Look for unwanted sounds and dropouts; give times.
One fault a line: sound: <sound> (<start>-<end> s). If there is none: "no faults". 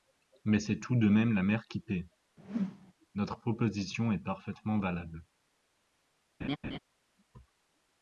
sound: whoosh (2.4-2.9 s)
sound: laugh (6.4-6.8 s)